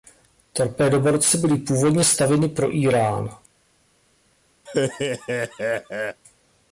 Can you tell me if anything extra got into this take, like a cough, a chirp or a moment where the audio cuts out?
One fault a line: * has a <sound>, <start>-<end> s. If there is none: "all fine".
* has a laugh, 4.7-6.2 s